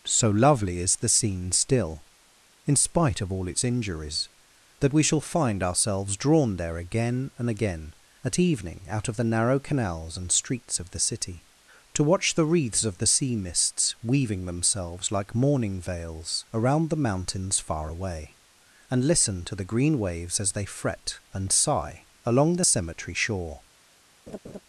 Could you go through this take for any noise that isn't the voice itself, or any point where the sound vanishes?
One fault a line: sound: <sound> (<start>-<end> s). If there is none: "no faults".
sound: laugh (24.3-24.6 s)